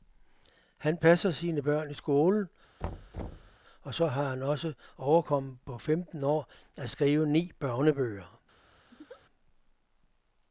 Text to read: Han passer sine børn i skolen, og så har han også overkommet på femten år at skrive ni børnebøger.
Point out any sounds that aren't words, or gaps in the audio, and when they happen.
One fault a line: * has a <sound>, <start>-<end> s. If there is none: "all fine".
* has a thud, 2.8-3.6 s
* has a laugh, 8.9-9.2 s